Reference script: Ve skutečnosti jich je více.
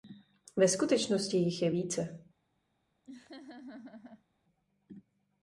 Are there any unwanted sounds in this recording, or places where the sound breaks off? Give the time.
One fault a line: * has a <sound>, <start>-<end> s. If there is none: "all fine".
* has a laugh, 3.1-4.3 s